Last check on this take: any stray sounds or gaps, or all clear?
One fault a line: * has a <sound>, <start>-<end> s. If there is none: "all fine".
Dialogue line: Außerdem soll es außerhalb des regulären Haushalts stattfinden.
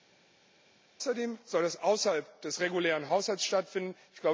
all fine